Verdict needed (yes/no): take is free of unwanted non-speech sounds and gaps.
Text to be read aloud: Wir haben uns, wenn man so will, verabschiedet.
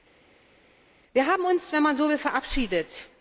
yes